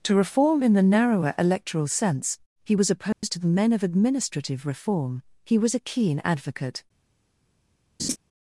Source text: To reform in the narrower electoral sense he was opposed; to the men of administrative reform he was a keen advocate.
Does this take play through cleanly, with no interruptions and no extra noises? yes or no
no